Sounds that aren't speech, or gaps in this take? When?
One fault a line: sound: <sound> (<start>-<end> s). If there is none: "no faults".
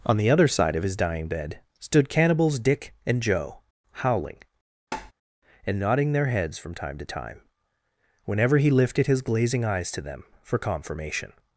sound: tap (4.9-5.1 s)